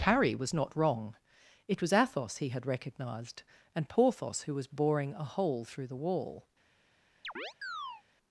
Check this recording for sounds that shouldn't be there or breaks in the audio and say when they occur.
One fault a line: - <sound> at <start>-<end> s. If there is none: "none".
- chirp at 7.2-8.0 s